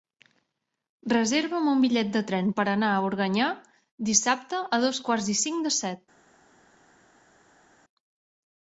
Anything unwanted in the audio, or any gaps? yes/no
no